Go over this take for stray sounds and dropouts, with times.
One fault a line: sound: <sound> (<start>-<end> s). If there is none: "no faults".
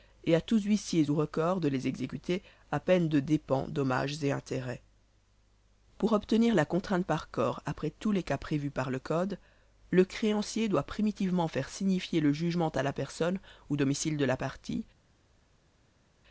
no faults